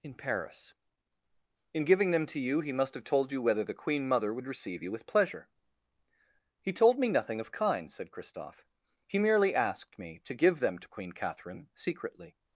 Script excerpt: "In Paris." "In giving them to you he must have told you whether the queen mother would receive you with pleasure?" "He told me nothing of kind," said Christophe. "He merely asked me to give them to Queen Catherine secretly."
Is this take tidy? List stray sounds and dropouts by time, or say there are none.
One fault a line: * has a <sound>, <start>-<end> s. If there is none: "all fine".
all fine